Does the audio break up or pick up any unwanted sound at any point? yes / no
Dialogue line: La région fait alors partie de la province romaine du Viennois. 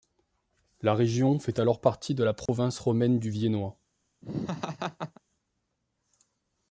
yes